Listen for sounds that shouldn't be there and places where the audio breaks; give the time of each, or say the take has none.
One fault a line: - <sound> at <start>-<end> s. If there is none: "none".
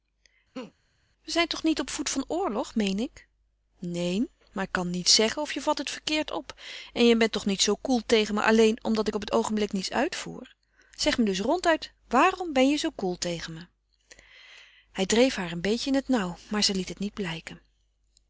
- laugh at 0.5-0.7 s